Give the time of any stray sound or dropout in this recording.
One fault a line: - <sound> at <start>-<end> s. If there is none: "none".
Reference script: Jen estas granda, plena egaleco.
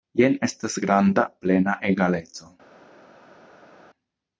none